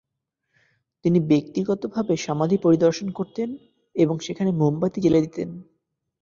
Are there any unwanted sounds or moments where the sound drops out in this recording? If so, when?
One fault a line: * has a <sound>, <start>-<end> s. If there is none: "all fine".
all fine